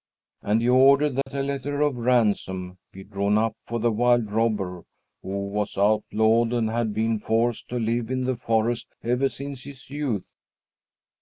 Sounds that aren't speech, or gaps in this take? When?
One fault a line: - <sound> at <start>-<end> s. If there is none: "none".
- dropout at 1.2-1.3 s